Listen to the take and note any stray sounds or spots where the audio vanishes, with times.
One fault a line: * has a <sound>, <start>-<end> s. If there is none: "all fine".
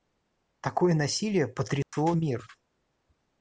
* has a dropout, 1.8-1.9 s